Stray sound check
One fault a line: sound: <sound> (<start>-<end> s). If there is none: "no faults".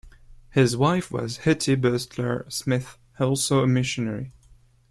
no faults